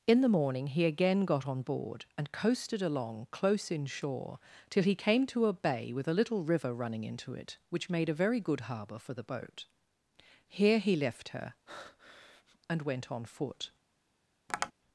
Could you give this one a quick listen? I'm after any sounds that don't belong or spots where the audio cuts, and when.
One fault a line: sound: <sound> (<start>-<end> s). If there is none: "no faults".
sound: breath (11.7-12.6 s)
sound: tap (14.5-14.7 s)